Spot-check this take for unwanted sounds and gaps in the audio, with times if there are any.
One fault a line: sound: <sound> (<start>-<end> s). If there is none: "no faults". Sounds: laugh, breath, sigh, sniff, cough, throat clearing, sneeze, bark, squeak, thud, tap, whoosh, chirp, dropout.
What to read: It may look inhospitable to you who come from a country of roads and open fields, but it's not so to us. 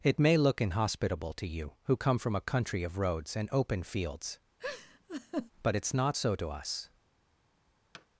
sound: laugh (4.6-5.5 s)
sound: thud (7.9-8.1 s)